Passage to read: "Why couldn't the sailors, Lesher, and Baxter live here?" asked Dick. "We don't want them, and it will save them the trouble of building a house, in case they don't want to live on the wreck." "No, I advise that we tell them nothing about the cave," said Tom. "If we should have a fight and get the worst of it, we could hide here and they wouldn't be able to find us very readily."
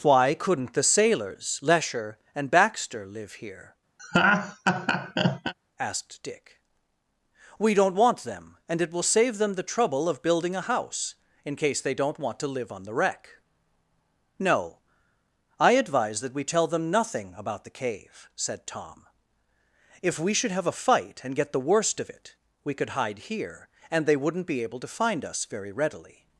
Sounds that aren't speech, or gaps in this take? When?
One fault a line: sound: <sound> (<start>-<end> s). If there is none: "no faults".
sound: laugh (4.0-5.5 s)